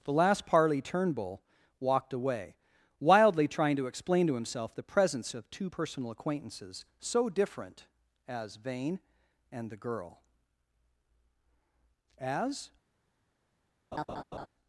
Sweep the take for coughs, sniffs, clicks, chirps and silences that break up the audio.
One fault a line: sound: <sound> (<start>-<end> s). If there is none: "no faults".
sound: laugh (13.9-14.5 s)